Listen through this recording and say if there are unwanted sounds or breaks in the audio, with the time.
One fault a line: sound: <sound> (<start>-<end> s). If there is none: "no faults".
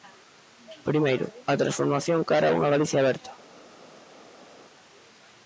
no faults